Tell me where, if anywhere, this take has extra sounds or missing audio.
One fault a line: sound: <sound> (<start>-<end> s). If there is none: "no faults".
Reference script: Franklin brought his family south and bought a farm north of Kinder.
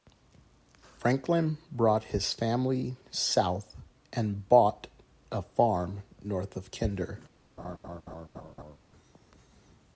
sound: laugh (7.6-8.8 s)